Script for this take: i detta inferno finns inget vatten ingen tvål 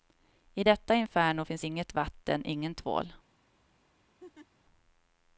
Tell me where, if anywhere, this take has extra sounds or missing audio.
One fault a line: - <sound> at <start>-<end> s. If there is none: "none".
- laugh at 4.2-4.5 s